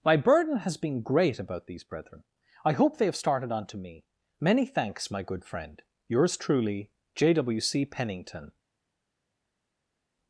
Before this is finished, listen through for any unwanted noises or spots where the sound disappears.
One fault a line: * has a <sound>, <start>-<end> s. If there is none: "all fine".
all fine